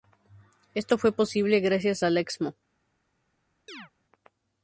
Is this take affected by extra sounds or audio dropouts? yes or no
yes